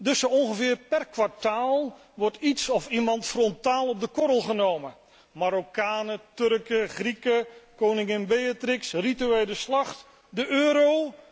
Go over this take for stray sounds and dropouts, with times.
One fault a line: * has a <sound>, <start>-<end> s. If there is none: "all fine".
all fine